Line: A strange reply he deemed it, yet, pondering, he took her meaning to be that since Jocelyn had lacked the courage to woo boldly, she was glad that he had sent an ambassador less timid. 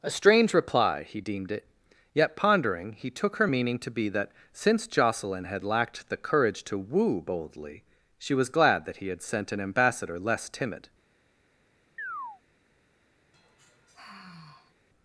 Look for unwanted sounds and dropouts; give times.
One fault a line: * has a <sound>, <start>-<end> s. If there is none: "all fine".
* has a chirp, 12.0-12.4 s
* has a sigh, 13.3-14.8 s